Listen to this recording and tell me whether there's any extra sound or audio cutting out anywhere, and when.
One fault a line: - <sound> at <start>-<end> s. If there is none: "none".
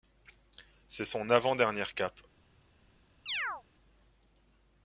- chirp at 3.3-3.6 s